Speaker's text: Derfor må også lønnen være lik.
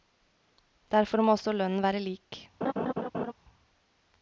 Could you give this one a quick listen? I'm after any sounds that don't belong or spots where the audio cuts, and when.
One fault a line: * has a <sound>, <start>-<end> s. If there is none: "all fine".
* has a laugh, 2.6-3.3 s